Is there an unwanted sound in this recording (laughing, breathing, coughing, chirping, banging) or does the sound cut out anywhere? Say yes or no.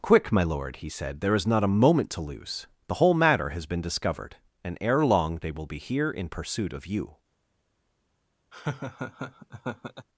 yes